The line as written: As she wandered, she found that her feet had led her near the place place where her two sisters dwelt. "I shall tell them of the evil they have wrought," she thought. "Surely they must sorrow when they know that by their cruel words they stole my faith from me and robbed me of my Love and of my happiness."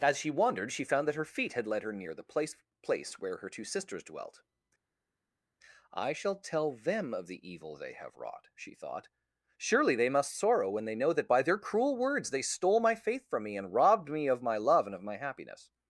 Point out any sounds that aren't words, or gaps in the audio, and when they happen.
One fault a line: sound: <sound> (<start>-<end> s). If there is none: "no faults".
no faults